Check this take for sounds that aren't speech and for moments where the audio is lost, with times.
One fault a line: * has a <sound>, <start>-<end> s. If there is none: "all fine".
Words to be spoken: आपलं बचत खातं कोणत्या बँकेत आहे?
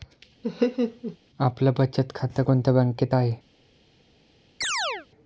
* has a laugh, 0.4-1.2 s
* has a chirp, 4.6-5.1 s